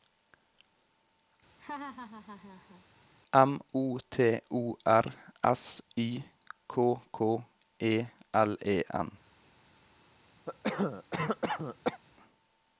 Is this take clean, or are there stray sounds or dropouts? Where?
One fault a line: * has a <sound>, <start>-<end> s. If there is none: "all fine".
* has a laugh, 1.6-2.8 s
* has a cough, 10.5-12.0 s